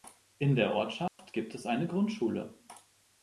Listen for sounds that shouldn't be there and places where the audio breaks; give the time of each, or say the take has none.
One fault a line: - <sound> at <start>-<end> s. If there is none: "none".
- dropout at 1.1-1.2 s